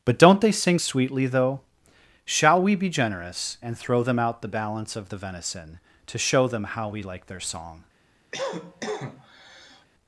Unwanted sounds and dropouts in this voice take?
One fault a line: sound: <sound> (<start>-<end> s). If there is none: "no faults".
sound: cough (8.3-9.9 s)